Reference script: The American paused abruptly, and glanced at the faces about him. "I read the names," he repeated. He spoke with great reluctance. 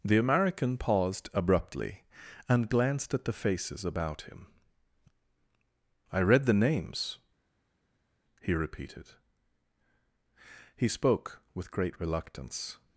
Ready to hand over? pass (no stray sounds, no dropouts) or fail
pass